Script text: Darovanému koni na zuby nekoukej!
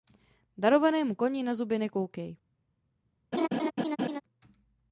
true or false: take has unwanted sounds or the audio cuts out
true